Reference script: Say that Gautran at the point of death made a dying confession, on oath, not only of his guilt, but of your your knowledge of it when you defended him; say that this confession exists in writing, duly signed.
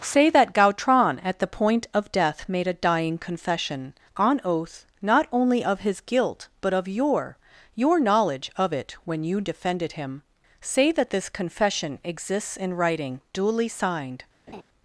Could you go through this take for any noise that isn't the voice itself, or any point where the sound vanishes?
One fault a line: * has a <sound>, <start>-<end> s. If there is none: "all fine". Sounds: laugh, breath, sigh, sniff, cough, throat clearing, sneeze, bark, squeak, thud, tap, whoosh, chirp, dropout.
* has a laugh, 14.5-14.6 s